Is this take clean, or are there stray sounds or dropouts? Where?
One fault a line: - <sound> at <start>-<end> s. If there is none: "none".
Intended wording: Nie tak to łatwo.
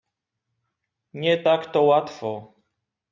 none